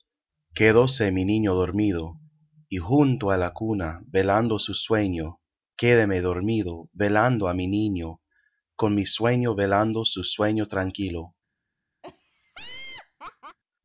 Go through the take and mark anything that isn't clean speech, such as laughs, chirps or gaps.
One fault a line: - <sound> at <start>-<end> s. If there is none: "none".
- laugh at 12.0-13.6 s